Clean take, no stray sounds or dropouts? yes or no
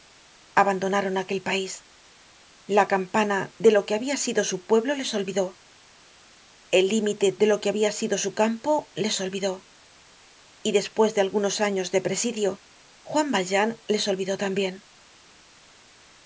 yes